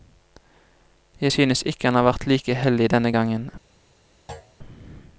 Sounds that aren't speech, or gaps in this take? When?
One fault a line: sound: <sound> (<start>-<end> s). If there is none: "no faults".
sound: thud (4.3-4.6 s)